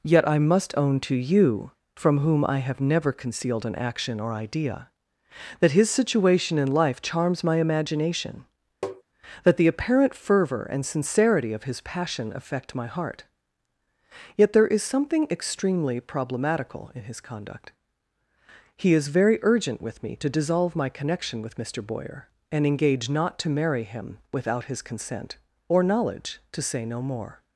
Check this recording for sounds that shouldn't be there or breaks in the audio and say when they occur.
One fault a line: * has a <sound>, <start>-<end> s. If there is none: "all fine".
* has a tap, 8.8-9.0 s